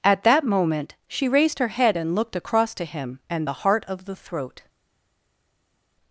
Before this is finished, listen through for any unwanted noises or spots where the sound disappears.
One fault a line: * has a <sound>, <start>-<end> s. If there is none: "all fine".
all fine